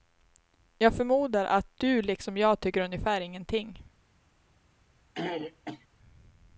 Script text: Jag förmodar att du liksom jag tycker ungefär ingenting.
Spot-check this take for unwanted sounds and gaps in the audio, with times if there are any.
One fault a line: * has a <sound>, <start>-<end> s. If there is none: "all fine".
* has a throat clearing, 5.2-5.9 s